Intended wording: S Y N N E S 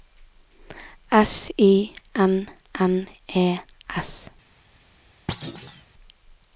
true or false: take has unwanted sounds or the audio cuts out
true